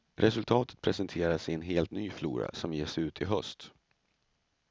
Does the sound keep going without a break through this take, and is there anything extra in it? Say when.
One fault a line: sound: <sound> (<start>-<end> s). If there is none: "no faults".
no faults